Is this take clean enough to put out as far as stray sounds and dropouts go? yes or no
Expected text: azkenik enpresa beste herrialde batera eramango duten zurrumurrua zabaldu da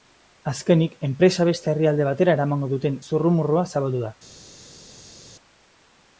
yes